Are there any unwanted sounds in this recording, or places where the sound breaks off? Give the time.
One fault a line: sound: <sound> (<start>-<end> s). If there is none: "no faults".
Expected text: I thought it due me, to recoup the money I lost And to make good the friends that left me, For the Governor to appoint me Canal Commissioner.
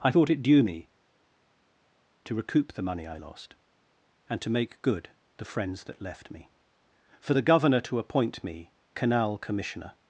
no faults